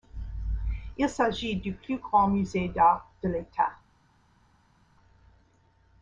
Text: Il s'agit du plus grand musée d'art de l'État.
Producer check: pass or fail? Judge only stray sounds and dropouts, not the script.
pass